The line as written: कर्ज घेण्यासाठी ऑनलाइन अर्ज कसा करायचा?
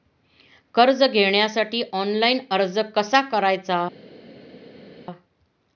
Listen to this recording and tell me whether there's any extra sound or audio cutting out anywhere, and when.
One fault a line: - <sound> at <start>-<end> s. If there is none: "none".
none